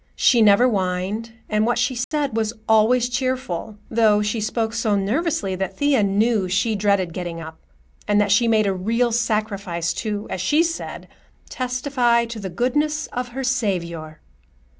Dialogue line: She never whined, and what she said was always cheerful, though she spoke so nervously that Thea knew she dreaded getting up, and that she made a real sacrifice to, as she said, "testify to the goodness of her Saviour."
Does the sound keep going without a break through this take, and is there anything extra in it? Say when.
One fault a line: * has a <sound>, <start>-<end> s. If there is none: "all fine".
* has a dropout, 2.0-2.1 s